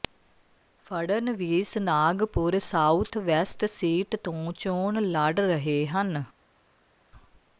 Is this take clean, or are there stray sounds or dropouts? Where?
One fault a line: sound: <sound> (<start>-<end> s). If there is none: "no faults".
no faults